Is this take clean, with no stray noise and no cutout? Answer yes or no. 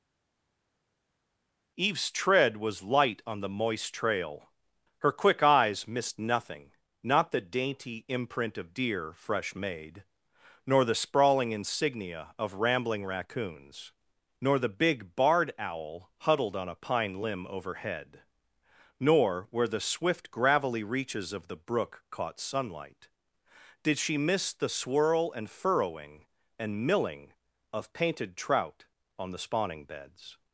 yes